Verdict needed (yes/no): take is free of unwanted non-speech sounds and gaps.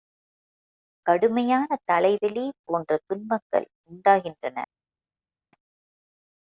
yes